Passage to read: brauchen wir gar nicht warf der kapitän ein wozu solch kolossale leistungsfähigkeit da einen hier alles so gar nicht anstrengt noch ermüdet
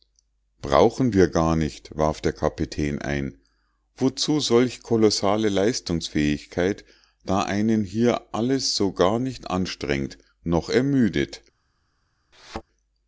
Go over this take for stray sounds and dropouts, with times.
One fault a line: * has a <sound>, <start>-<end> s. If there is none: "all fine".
* has a thud, 12.3-12.6 s